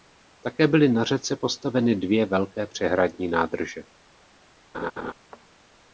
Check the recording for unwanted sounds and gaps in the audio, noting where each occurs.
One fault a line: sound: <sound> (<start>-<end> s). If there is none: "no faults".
sound: laugh (4.7-5.1 s)